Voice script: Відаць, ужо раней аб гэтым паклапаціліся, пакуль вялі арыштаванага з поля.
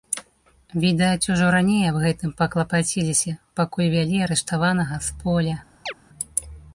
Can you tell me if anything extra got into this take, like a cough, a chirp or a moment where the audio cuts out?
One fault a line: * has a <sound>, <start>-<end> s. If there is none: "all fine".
* has a chirp, 5.9-5.9 s